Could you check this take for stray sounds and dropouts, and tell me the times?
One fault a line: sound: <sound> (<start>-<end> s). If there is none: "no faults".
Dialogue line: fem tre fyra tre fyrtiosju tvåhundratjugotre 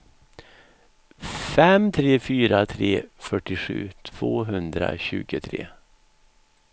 no faults